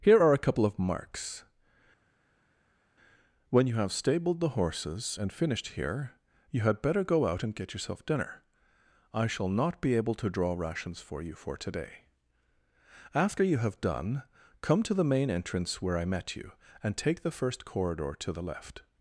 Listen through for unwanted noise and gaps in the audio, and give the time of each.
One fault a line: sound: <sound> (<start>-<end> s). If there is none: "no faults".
no faults